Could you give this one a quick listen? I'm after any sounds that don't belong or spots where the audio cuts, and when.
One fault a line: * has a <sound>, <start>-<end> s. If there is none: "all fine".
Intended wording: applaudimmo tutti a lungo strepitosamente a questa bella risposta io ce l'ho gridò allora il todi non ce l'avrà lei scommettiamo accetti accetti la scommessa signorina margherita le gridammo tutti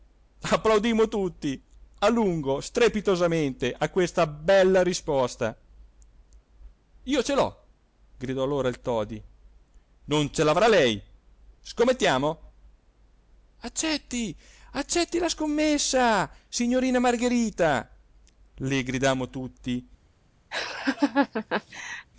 * has a laugh, 20.5-22.1 s